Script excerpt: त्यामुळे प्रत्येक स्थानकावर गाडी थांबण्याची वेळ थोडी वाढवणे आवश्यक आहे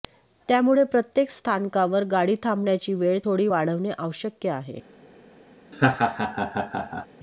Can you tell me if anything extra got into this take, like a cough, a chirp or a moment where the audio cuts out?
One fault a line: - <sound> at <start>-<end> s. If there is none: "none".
- laugh at 5.7-7.1 s